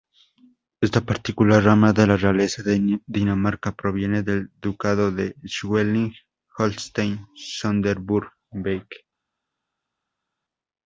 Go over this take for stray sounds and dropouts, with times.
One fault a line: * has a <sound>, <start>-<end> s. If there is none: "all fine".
all fine